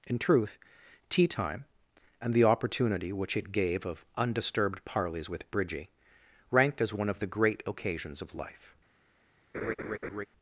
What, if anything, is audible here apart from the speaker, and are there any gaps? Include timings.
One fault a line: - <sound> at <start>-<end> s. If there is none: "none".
- laugh at 9.5-10.3 s